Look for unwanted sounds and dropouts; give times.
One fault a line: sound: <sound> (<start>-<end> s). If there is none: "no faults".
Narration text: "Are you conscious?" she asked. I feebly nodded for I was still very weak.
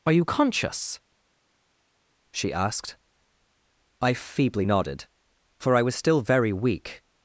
no faults